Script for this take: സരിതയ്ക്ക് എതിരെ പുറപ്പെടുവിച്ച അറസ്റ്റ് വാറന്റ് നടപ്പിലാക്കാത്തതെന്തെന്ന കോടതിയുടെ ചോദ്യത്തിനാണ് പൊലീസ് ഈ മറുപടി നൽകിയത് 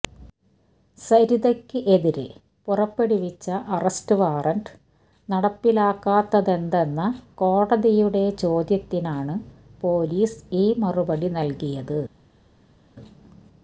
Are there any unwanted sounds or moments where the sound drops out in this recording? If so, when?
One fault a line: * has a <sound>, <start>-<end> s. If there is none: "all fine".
all fine